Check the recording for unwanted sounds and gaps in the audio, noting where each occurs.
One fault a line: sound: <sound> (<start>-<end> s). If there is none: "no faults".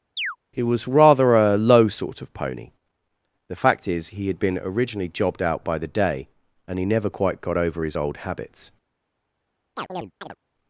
sound: chirp (0.2-0.4 s)
sound: chirp (9.8-10.4 s)